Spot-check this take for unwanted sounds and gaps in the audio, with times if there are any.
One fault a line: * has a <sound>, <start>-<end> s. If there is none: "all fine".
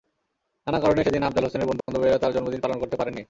* has a dropout, 1.8-1.9 s